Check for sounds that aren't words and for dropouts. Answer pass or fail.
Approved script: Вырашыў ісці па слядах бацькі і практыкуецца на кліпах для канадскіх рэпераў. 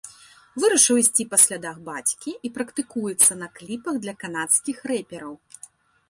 pass